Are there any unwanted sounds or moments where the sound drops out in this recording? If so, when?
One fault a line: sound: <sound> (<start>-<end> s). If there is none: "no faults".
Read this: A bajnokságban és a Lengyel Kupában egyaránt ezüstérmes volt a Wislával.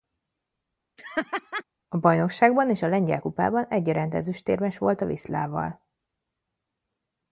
sound: laugh (1.0-1.6 s)